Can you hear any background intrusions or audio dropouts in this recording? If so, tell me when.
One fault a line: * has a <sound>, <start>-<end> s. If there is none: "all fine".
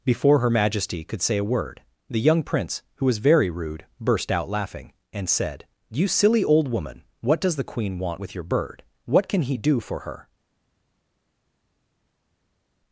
all fine